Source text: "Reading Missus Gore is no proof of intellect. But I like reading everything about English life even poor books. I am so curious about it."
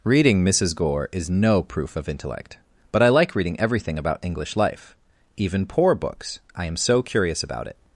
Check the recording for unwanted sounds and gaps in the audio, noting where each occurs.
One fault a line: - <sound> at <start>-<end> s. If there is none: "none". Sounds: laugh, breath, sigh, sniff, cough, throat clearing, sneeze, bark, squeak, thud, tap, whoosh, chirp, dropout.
none